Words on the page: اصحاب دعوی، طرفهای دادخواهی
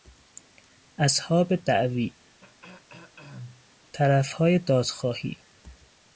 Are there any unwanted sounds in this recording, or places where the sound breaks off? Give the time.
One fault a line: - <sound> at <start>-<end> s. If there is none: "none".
- throat clearing at 2.4-3.7 s